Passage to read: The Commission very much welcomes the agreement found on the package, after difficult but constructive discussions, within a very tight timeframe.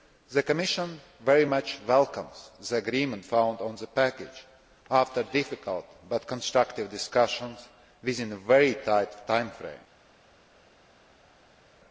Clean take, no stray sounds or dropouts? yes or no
yes